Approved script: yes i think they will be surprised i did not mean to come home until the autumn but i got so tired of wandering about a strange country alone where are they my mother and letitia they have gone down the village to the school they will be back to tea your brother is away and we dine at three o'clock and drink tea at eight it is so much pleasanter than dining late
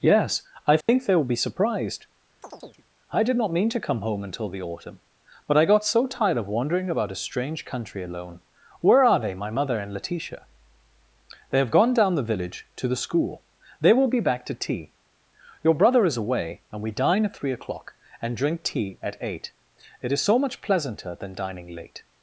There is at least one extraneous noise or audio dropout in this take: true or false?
true